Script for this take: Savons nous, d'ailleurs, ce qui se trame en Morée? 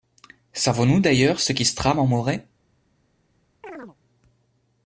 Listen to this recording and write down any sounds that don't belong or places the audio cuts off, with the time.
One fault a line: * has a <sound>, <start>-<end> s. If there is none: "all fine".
* has a chirp, 3.6-4.0 s